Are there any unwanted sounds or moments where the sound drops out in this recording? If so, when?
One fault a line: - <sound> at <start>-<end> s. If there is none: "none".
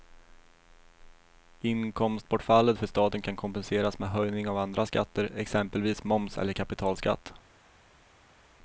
none